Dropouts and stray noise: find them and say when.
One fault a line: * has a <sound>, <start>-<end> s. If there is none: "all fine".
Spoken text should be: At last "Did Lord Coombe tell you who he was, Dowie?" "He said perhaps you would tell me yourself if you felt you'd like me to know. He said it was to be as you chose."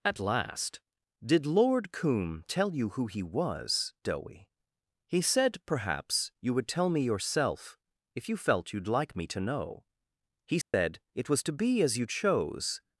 * has a dropout, 10.6-10.7 s